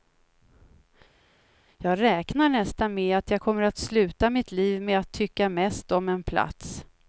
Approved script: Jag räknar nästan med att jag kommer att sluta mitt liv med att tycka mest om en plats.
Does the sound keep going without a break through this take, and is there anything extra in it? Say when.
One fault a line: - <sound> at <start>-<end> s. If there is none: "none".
none